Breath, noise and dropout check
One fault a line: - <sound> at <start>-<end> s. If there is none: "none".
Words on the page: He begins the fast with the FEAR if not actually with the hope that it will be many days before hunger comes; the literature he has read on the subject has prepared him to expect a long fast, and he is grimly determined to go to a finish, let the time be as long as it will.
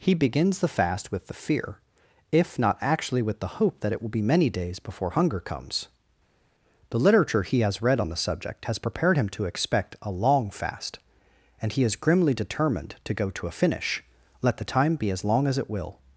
none